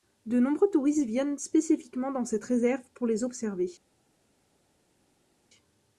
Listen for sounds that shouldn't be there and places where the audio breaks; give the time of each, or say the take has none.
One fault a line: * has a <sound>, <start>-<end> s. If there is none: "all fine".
all fine